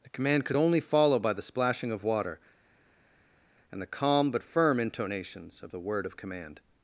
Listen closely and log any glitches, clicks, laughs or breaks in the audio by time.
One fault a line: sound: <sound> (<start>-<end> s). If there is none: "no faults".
no faults